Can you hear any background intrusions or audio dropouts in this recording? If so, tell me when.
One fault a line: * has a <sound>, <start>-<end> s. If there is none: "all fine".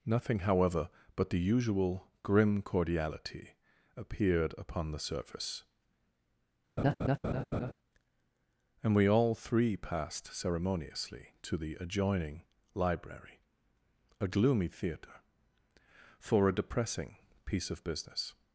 * has a laugh, 6.8-7.7 s